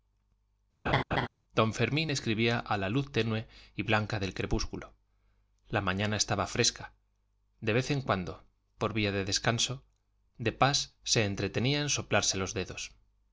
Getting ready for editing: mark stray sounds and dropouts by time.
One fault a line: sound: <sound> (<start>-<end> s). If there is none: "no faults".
sound: laugh (0.9-1.3 s)